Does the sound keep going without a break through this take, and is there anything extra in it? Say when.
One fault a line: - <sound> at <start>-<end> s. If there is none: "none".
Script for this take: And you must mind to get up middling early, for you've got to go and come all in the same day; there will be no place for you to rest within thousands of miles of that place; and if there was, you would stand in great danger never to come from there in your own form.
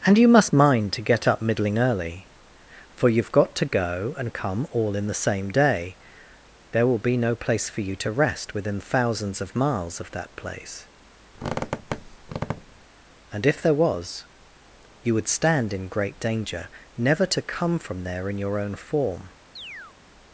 - squeak at 11.3-12.9 s
- chirp at 19.6-20.0 s